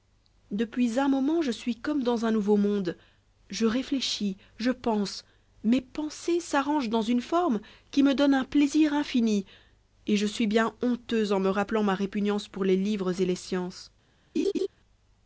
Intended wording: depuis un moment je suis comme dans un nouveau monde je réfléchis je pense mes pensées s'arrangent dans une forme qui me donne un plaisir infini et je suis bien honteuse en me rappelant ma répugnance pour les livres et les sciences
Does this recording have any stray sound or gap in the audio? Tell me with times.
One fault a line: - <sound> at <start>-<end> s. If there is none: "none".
- laugh at 14.3-14.7 s